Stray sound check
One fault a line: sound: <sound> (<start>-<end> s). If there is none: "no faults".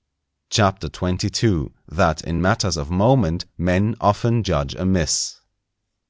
no faults